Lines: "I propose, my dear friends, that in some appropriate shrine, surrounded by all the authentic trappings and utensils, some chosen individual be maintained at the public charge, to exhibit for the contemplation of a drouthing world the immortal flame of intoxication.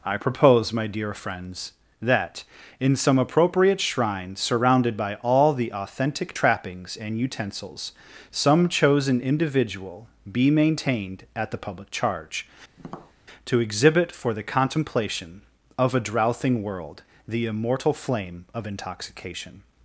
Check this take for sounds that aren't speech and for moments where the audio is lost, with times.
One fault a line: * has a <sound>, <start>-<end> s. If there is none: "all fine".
* has a tap, 12.8-13.1 s